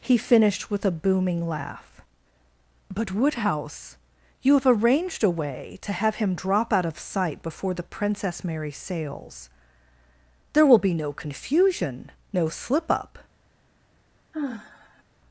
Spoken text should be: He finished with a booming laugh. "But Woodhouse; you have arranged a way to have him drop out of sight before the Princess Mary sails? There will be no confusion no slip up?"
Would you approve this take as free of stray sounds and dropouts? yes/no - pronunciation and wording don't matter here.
no